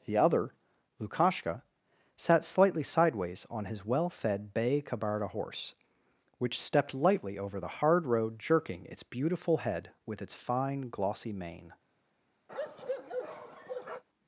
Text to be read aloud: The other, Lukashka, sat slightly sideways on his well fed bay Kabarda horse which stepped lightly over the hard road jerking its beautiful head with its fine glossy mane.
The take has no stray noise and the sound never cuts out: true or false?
false